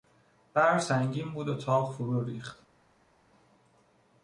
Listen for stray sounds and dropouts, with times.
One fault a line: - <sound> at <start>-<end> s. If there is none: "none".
none